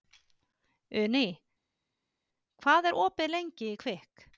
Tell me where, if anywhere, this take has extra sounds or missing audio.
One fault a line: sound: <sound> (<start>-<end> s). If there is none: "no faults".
no faults